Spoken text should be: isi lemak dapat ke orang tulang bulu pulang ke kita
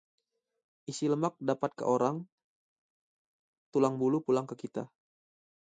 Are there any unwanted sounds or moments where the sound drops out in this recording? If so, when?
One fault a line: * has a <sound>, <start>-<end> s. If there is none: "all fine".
all fine